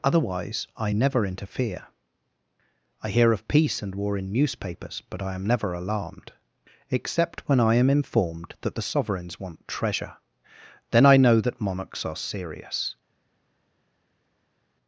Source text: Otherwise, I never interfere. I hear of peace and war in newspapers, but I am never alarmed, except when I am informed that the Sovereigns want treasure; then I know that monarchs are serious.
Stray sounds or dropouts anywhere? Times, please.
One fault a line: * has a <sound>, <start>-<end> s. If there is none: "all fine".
all fine